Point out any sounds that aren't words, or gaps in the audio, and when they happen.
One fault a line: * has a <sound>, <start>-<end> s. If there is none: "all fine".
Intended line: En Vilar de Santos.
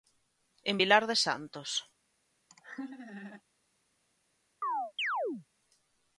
* has a laugh, 2.5-3.4 s
* has a chirp, 4.6-5.5 s